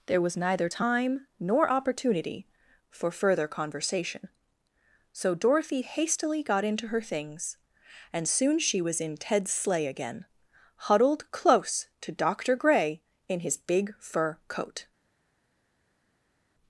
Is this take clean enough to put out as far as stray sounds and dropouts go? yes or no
yes